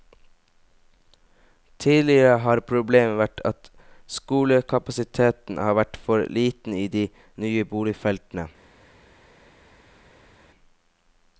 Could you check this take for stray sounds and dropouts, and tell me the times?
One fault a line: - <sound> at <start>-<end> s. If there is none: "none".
none